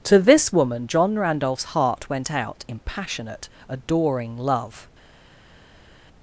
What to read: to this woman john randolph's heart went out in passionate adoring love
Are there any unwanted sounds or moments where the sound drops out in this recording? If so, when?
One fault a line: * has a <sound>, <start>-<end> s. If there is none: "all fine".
all fine